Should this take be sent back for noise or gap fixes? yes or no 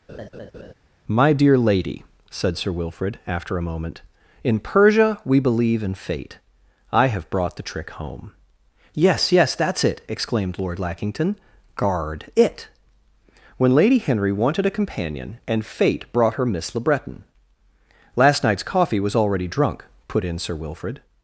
yes